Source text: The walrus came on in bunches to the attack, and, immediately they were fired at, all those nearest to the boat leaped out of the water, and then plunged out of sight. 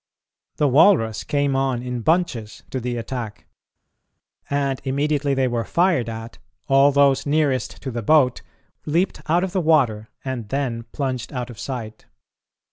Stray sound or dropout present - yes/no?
no